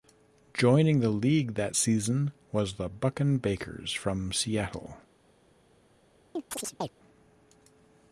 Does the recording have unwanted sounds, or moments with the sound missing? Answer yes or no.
yes